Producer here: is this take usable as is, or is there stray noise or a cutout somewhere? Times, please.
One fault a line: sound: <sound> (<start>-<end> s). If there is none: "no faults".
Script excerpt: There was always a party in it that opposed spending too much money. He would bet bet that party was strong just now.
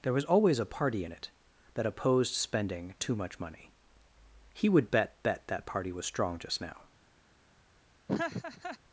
sound: laugh (8.1-8.8 s)